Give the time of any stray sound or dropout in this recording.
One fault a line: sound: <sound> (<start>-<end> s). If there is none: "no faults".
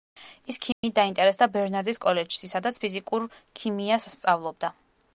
sound: dropout (0.7-0.8 s)